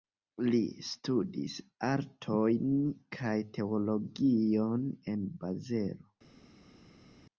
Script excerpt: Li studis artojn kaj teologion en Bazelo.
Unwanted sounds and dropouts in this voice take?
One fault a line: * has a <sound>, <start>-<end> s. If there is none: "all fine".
all fine